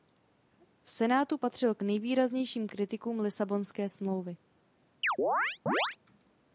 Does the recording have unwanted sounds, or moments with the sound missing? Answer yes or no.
yes